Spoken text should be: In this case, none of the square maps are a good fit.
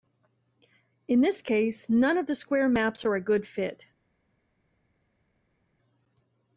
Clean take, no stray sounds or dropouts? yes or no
yes